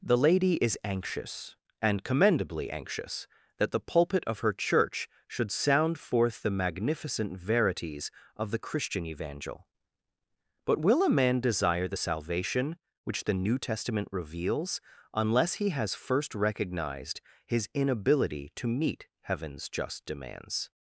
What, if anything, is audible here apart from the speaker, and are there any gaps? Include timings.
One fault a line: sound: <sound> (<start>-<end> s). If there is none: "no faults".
no faults